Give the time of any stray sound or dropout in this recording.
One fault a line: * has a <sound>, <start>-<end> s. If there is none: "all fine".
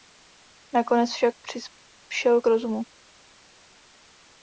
all fine